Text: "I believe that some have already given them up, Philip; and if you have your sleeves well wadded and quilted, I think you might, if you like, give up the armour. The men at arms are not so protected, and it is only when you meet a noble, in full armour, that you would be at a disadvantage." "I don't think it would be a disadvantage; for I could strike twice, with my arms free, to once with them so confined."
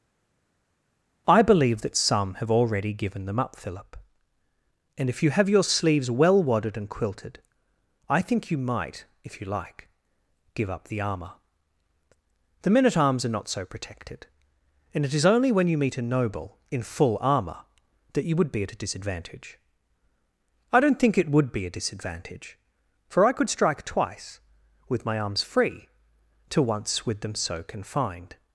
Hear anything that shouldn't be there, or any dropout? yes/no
no